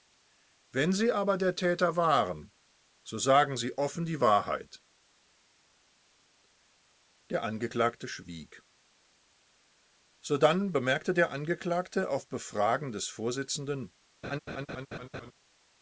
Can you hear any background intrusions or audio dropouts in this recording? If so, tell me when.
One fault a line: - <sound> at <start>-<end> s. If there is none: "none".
- laugh at 14.2-15.3 s